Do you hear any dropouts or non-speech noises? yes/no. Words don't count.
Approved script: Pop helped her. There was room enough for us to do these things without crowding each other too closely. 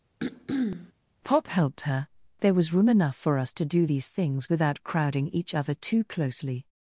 yes